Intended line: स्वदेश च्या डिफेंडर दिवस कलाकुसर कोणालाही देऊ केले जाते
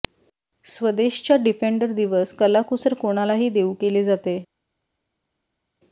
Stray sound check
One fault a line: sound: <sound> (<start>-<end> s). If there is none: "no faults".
no faults